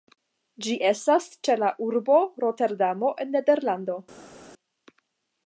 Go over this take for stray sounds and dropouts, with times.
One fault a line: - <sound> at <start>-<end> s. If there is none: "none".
none